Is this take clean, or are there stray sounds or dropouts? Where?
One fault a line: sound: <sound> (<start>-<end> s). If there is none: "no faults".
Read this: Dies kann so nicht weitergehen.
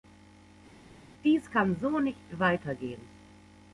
no faults